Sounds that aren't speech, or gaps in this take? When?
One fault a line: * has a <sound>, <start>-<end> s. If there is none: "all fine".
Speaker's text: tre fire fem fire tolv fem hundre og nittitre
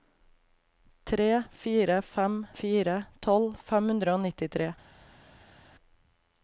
all fine